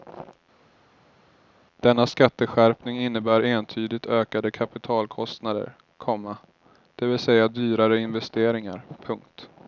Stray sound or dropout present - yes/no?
no